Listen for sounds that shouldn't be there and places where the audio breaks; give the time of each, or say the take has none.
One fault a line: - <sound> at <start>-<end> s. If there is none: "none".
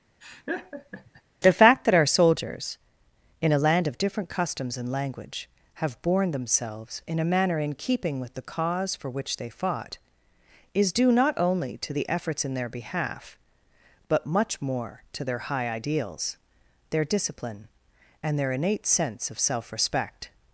- laugh at 0.2-1.2 s